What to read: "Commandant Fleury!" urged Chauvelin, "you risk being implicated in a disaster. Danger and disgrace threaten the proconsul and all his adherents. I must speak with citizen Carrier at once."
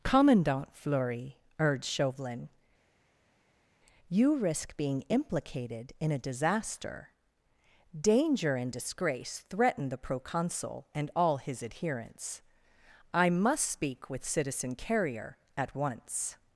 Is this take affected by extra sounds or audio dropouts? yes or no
no